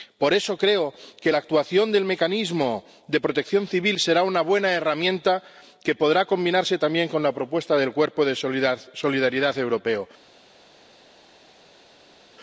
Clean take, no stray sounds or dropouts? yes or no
yes